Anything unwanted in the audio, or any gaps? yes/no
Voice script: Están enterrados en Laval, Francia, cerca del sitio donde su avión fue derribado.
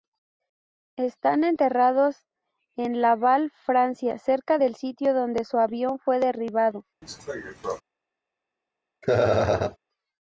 yes